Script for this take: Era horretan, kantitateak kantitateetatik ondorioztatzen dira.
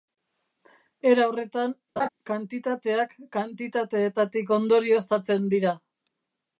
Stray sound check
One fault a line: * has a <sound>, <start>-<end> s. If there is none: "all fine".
* has a laugh, 2.0-2.1 s